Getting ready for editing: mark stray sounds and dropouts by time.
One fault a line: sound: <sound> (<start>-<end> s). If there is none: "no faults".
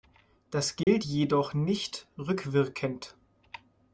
sound: dropout (0.8-0.9 s)